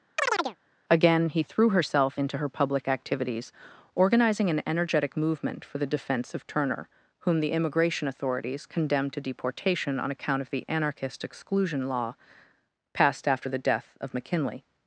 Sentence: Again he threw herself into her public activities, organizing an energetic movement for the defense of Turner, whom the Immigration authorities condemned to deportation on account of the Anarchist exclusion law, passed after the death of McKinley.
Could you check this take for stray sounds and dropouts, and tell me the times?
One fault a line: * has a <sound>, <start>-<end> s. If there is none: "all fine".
* has a chirp, 0.2-0.6 s